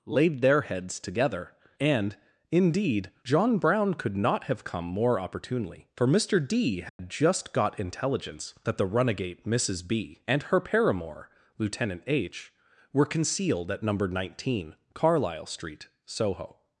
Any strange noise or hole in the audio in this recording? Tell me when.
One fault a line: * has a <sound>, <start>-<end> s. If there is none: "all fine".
* has a dropout, 6.9-7.0 s